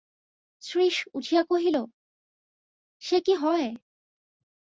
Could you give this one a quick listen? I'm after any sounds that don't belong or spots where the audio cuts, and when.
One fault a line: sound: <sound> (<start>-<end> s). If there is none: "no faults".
no faults